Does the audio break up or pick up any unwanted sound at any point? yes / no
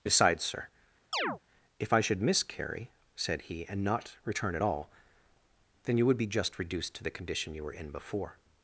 yes